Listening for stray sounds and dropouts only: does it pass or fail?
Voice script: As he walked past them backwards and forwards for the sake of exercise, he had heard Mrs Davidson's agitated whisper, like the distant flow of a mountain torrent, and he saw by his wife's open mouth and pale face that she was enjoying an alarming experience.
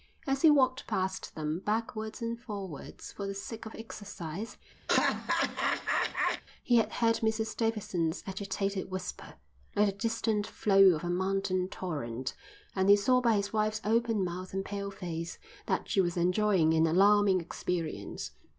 fail